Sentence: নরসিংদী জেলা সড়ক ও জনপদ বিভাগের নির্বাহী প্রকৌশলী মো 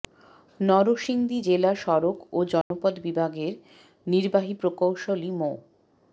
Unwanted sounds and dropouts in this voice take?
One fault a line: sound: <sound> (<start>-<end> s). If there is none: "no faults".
sound: dropout (2.6-2.7 s)